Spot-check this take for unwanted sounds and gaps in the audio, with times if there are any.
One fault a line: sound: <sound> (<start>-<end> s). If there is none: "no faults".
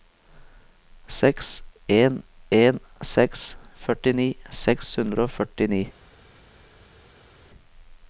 no faults